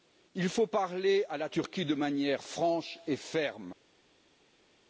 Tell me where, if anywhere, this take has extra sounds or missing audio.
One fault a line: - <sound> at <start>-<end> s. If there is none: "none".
none